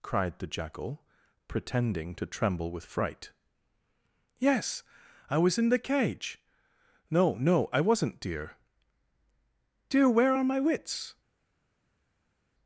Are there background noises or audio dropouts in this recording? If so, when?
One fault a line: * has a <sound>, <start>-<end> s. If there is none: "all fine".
all fine